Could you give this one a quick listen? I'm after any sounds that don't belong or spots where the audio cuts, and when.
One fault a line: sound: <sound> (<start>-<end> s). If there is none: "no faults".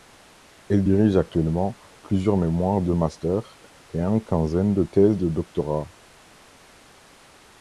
no faults